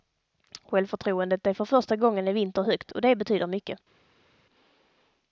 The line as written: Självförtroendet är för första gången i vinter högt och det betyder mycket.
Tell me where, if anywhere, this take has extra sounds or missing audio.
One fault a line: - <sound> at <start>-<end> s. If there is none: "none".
none